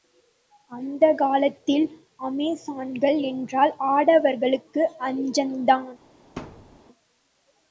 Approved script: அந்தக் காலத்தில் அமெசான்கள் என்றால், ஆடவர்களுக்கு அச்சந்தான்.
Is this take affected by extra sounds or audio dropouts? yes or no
yes